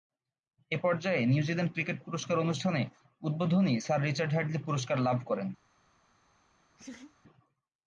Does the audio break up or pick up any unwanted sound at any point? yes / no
yes